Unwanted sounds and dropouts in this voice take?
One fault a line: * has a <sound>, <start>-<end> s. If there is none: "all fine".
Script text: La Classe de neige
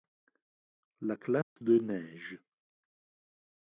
* has a dropout, 1.4-1.6 s